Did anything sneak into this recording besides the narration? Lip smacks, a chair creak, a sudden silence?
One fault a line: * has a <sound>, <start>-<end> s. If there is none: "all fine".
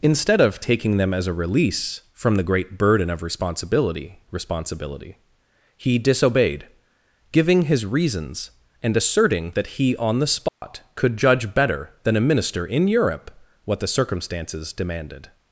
* has a dropout, 10.5-10.6 s